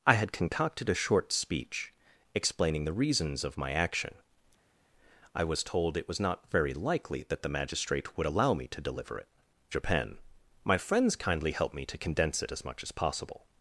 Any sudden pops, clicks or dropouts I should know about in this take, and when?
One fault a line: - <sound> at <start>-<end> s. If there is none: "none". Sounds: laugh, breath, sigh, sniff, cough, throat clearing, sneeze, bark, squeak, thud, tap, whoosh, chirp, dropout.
none